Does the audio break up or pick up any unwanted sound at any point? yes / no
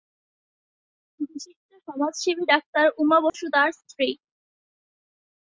yes